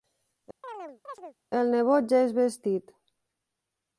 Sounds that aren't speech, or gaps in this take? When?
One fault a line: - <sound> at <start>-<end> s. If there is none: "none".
- chirp at 0.6-1.4 s